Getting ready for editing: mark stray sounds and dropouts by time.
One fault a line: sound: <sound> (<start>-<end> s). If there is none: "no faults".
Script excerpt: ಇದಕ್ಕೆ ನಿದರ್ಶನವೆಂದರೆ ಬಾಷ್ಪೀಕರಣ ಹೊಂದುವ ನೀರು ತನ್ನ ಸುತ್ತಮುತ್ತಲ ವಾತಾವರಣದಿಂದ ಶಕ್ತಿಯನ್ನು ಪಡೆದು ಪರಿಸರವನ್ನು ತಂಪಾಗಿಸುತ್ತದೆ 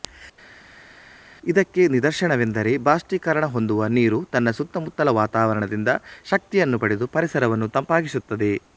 no faults